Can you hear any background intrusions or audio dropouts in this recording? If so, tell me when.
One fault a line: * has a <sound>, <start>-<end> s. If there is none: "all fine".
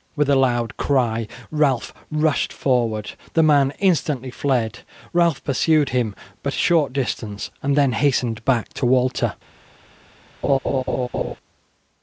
* has a laugh, 10.4-11.3 s